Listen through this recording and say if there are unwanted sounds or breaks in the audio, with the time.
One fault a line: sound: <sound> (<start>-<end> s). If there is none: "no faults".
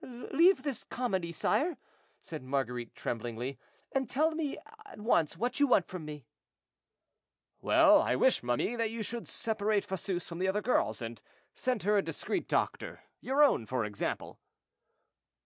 no faults